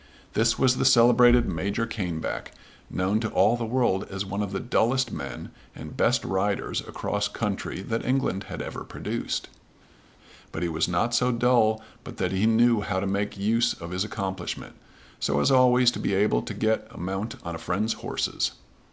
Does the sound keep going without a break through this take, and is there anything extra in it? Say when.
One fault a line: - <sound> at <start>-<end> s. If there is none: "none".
none